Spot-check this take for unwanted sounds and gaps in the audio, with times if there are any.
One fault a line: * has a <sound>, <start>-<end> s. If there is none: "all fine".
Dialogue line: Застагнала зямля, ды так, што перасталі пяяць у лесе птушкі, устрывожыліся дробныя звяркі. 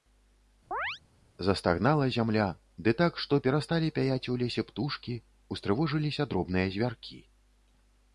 * has a chirp, 0.7-1.0 s